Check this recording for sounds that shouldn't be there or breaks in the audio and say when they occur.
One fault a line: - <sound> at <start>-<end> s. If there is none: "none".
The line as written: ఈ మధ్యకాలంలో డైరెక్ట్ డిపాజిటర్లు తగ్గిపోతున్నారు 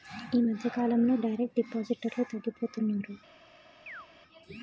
- chirp at 3.9-4.1 s